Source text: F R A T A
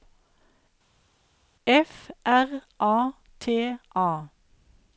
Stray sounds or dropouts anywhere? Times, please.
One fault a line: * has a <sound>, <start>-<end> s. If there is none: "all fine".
all fine